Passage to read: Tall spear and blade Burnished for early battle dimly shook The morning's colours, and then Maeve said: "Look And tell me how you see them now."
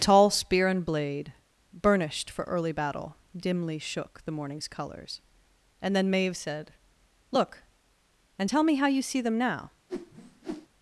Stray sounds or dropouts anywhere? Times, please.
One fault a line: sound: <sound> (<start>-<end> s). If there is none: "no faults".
sound: whoosh (9.9-10.7 s)